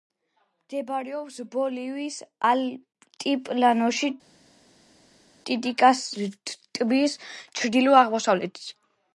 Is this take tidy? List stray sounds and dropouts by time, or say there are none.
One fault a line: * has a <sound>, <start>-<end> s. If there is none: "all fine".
all fine